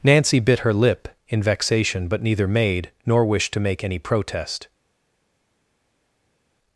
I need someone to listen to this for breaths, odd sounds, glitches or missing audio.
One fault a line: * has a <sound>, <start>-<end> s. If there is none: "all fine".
all fine